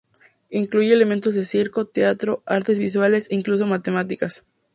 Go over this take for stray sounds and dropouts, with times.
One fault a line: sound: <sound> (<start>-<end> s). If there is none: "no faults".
no faults